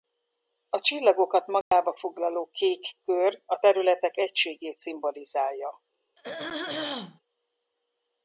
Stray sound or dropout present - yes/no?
yes